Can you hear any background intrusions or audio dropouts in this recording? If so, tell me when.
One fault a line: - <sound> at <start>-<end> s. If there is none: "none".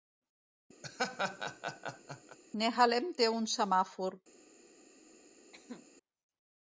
- laugh at 0.8-2.4 s
- cough at 5.5-5.9 s